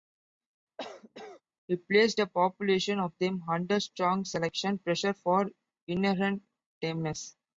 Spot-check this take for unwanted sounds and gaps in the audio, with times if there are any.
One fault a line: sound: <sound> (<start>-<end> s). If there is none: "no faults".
sound: cough (0.8-1.4 s)